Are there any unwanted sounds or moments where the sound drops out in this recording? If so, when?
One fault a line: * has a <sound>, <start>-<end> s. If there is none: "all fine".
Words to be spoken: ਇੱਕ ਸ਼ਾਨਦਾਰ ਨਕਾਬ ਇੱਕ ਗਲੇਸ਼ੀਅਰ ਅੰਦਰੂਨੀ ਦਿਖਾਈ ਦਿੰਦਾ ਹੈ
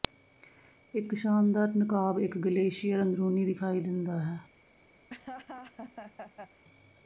* has a laugh, 5.1-6.6 s